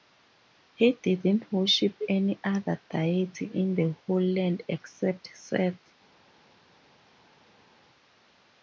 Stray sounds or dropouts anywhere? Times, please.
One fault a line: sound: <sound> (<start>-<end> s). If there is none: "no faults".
no faults